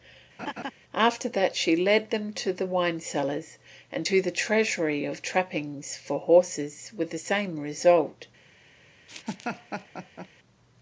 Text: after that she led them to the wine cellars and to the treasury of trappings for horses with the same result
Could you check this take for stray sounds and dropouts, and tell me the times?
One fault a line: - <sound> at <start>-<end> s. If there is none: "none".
- laugh at 0.4-0.7 s
- laugh at 9.1-10.3 s